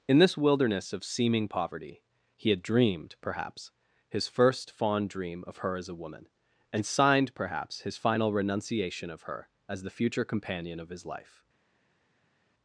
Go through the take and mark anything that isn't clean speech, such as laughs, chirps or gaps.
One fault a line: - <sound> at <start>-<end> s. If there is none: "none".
none